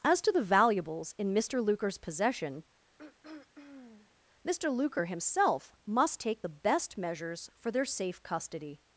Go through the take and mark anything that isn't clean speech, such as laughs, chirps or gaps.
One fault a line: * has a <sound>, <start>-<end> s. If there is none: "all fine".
* has a throat clearing, 3.0-4.2 s